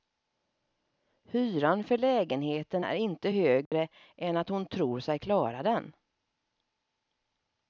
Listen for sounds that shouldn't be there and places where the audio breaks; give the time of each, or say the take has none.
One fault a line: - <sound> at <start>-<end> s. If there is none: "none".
- dropout at 3.7-3.7 s